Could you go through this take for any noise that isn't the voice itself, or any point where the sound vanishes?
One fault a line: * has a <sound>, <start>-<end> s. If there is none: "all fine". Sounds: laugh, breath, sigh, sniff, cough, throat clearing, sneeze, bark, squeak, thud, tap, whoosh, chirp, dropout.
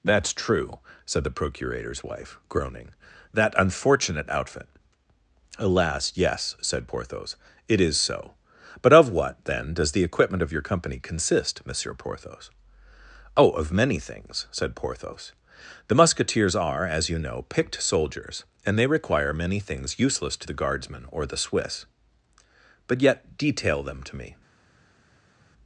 all fine